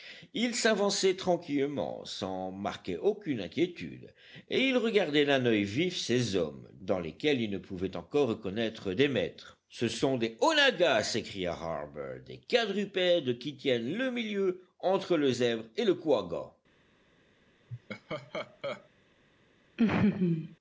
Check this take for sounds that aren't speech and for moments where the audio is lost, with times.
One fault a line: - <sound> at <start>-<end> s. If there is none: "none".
- laugh at 17.7-18.9 s
- laugh at 19.8-20.6 s